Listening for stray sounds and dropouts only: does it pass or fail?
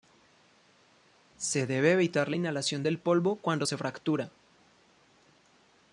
pass